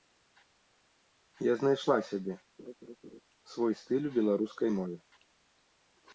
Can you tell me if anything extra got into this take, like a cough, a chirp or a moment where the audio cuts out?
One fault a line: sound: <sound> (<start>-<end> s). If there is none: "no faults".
sound: laugh (2.6-3.2 s)